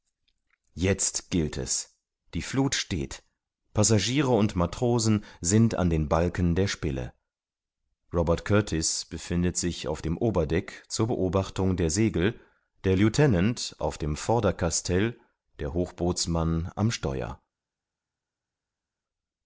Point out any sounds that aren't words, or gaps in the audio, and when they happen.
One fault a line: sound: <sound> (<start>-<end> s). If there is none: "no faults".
no faults